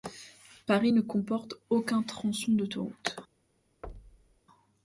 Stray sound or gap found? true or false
true